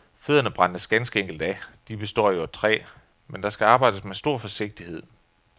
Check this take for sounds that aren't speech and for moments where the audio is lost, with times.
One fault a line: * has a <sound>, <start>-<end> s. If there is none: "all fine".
all fine